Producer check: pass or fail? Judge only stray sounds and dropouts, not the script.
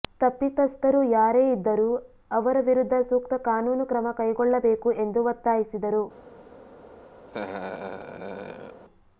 fail